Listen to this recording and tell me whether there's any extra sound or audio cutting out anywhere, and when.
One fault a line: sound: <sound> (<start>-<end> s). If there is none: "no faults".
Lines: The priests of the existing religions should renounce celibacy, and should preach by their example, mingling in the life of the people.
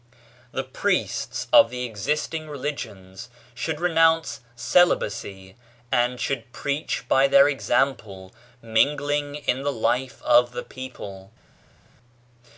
no faults